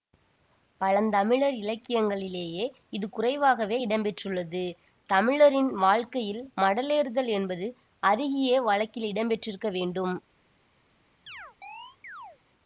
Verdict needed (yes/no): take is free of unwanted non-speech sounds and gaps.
no